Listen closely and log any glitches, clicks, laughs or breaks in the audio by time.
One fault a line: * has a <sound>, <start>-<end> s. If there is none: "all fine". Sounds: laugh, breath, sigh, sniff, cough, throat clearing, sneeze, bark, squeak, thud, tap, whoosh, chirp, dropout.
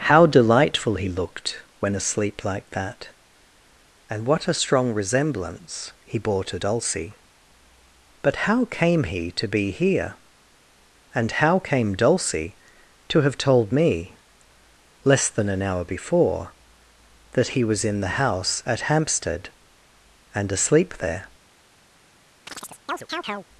* has a chirp, 22.5-23.5 s